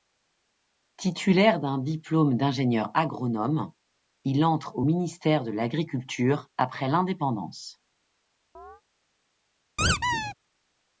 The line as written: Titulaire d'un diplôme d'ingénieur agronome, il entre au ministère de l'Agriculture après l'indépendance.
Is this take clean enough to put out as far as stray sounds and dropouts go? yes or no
no